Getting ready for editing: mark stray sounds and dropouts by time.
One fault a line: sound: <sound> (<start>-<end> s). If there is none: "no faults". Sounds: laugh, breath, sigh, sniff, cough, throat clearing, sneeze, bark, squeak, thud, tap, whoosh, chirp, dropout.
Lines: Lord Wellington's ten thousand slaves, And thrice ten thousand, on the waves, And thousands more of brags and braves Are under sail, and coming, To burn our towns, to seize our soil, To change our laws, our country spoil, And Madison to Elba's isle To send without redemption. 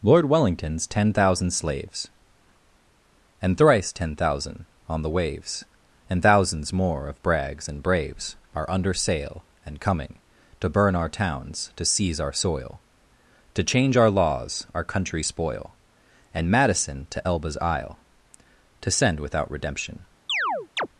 sound: chirp (20.3-20.9 s)